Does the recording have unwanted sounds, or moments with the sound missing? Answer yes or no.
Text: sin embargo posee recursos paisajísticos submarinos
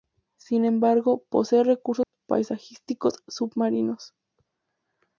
yes